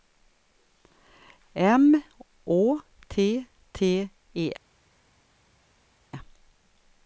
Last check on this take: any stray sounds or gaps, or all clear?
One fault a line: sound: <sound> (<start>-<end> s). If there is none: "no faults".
no faults